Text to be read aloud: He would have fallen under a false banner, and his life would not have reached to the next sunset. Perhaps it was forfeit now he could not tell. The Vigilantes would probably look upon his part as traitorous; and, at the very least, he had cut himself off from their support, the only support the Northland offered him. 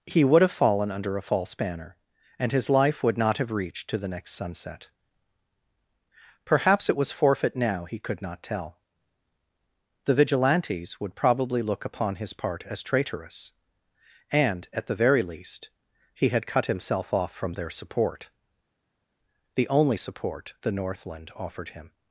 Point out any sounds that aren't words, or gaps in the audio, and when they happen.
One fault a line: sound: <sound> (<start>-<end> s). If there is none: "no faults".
no faults